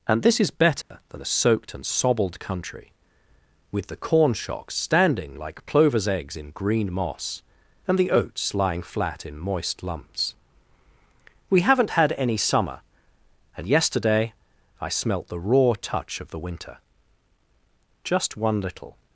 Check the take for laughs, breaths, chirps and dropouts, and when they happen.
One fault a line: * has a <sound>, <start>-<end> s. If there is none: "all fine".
* has a dropout, 0.8-0.9 s